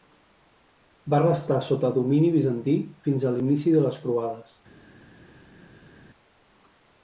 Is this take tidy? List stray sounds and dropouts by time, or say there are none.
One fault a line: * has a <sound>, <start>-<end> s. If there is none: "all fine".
all fine